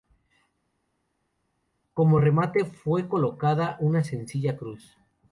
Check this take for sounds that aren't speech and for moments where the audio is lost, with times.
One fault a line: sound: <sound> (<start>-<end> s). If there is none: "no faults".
no faults